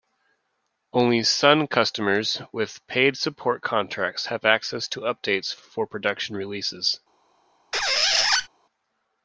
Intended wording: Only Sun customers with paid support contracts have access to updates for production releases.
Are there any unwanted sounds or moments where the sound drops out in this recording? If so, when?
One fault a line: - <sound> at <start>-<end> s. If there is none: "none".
- squeak at 7.7-8.5 s